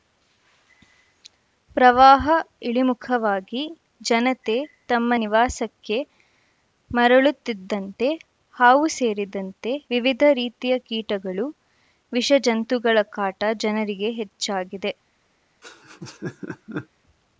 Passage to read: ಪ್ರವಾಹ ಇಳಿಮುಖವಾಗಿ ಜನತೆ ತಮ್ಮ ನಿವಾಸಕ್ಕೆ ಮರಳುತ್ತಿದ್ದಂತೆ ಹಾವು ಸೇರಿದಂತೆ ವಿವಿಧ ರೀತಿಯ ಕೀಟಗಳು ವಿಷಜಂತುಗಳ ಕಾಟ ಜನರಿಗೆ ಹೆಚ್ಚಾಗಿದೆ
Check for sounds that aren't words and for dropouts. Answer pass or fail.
fail